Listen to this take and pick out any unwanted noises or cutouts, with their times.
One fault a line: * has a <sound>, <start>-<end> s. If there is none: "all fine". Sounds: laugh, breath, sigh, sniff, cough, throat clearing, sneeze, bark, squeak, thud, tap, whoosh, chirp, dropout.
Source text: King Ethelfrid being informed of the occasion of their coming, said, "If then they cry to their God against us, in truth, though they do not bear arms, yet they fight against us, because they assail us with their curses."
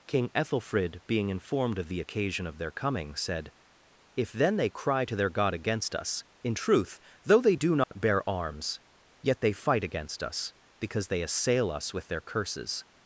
* has a dropout, 7.8-7.9 s